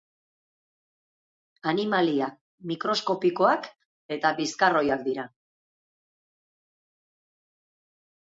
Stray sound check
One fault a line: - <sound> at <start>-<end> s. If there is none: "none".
none